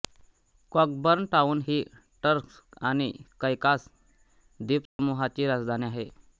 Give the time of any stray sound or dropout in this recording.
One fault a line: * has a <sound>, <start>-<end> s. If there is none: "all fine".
* has a dropout, 4.9-5.0 s